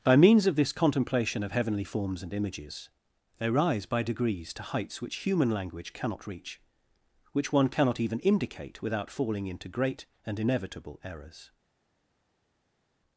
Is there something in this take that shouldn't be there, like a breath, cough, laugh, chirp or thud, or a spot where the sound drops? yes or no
no